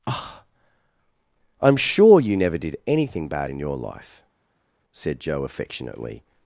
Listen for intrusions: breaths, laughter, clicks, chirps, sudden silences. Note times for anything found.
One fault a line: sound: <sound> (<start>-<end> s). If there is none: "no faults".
no faults